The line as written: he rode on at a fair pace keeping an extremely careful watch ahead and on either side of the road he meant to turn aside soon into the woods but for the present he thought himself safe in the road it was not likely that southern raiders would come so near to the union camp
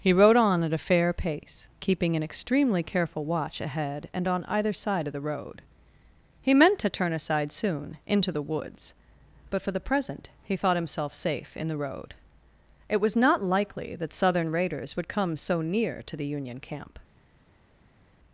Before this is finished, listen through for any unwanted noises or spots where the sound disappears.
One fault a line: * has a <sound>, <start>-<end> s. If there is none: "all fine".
all fine